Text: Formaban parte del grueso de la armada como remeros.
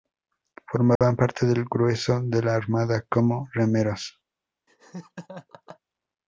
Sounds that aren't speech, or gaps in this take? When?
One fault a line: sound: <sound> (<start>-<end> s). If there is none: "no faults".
sound: dropout (1.0-1.0 s)
sound: laugh (4.7-5.8 s)